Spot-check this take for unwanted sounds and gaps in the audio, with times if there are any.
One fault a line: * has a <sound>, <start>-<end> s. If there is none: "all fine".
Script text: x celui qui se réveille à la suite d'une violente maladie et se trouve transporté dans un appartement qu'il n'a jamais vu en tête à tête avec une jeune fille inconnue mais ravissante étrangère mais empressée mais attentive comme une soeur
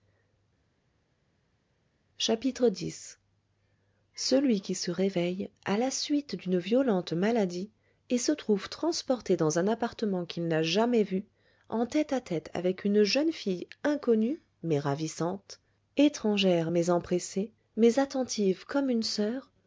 all fine